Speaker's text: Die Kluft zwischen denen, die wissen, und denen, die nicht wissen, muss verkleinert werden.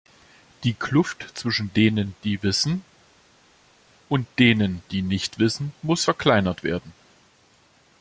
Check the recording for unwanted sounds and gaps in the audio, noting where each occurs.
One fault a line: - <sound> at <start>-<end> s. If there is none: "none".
none